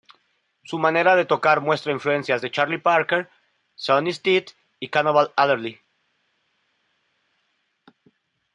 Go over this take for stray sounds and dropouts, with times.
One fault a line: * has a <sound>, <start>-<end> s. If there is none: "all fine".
all fine